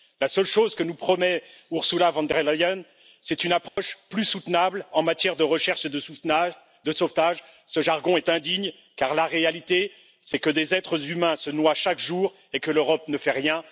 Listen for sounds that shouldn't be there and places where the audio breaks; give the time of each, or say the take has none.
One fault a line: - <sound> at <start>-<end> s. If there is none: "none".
- dropout at 3.7-3.8 s